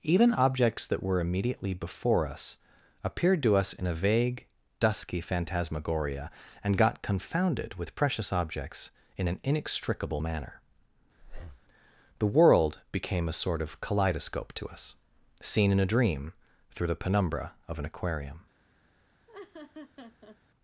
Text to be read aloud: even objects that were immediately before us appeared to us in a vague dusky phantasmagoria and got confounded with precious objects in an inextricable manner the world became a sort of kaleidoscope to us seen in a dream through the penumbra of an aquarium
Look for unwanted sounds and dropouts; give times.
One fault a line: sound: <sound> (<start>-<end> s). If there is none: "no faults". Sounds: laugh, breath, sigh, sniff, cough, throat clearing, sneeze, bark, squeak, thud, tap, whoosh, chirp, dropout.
sound: breath (11.2-11.7 s)
sound: laugh (19.3-20.4 s)